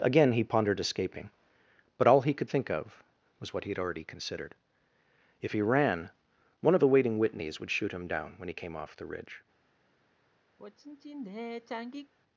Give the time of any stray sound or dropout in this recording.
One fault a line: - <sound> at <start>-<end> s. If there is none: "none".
- sigh at 10.6-12.1 s